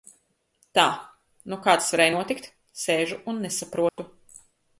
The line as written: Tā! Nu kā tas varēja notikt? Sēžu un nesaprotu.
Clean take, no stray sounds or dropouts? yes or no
no